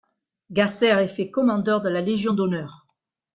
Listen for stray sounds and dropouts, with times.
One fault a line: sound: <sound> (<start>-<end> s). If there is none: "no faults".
no faults